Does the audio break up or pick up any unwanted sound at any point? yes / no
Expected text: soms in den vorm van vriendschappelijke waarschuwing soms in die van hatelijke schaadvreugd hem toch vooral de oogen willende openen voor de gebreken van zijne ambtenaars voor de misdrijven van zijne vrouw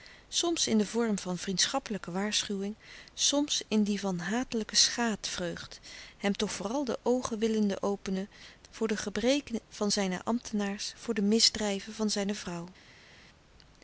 no